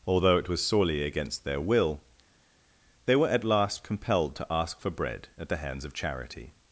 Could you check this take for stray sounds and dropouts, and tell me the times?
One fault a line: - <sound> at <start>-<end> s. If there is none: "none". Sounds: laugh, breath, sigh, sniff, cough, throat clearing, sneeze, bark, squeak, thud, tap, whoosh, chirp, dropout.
none